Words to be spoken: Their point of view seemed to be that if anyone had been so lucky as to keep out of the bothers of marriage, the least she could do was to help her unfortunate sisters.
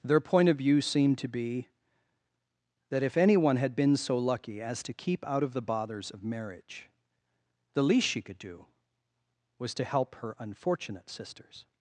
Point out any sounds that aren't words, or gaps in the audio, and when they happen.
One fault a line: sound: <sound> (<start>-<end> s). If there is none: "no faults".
no faults